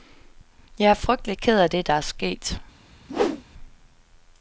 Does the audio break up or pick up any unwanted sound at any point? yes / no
yes